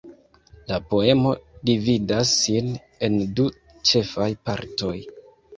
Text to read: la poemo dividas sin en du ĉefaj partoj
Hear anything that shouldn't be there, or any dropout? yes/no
no